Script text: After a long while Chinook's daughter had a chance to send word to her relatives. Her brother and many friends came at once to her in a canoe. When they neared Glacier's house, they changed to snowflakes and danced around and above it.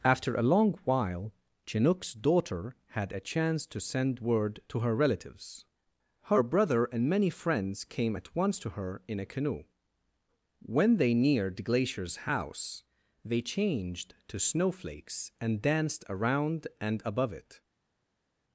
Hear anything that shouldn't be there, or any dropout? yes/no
no